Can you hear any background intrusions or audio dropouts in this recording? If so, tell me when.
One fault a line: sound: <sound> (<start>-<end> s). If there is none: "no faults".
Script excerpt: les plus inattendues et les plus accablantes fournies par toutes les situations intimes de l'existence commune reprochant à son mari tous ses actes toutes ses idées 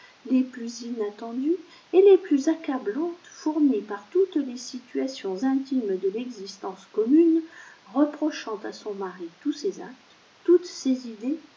no faults